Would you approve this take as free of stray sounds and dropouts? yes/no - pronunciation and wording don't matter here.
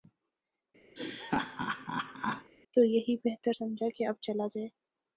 no